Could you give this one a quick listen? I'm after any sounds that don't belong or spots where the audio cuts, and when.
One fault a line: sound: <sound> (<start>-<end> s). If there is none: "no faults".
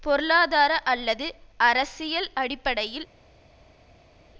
no faults